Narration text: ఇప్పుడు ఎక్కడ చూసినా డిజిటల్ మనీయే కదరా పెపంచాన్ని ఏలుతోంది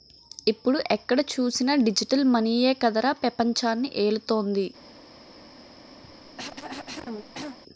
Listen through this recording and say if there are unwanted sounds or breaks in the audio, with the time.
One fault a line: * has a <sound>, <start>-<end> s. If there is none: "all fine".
* has a cough, 6.0-7.6 s